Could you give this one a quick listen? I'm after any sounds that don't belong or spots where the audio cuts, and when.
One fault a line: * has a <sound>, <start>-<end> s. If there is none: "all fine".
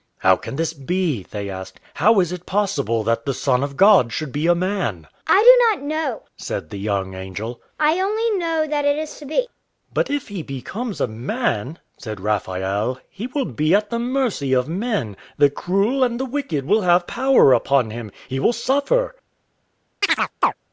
* has a chirp, 20.0-20.5 s